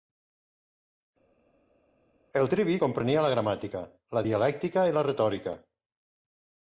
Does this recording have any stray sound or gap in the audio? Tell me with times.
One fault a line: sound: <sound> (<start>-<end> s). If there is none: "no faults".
no faults